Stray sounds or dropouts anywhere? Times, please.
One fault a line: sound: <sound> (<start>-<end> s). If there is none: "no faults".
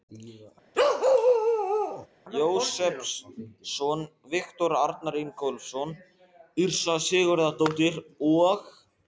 sound: bark (0.7-2.1 s)